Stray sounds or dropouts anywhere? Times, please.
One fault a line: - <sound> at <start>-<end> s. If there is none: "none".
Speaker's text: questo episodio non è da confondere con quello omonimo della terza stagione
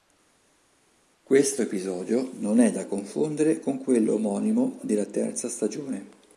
none